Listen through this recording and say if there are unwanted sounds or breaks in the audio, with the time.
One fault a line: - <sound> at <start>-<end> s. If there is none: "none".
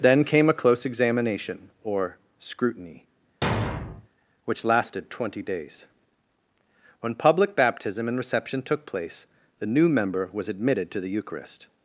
- thud at 3.4-4.1 s